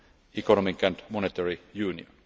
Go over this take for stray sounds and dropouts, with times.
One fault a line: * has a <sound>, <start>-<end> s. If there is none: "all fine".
all fine